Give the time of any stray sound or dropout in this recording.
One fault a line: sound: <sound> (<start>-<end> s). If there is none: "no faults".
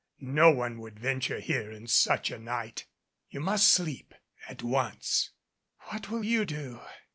no faults